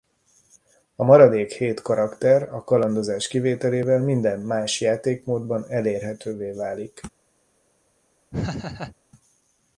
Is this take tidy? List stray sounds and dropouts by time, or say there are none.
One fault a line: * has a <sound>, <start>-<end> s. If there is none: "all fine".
* has a laugh, 8.3-9.0 s